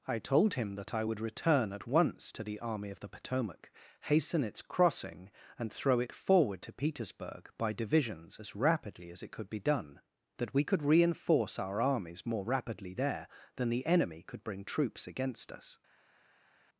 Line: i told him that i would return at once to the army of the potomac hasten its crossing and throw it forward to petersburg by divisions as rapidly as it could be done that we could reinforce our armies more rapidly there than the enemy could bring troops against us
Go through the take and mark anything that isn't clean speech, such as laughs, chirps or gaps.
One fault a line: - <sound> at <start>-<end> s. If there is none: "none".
none